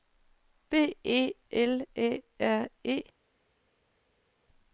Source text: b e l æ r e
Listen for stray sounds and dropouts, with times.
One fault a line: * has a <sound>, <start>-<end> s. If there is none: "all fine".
all fine